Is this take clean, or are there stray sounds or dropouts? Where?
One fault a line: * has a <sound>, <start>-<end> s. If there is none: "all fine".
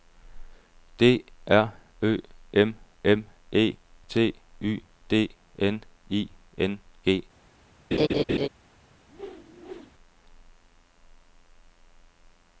* has a laugh, 7.9-8.5 s
* has a whoosh, 9.1-9.9 s